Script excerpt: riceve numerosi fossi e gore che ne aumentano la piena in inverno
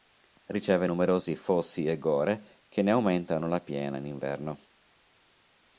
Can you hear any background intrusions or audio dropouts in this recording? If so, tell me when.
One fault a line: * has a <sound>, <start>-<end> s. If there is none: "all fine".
all fine